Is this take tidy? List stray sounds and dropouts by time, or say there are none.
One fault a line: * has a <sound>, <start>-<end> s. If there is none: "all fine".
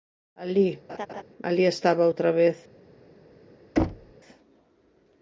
* has a laugh, 0.9-1.2 s
* has a thud, 3.8-4.1 s